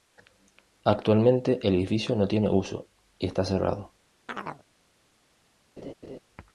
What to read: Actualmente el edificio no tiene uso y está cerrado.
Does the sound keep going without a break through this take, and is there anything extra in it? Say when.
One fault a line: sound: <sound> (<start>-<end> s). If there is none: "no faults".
sound: chirp (4.3-4.6 s)
sound: laugh (5.8-6.2 s)